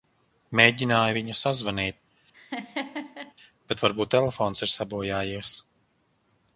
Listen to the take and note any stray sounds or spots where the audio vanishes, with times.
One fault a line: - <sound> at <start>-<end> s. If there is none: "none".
- laugh at 2.3-3.3 s